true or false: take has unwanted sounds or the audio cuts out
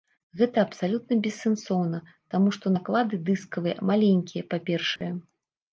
true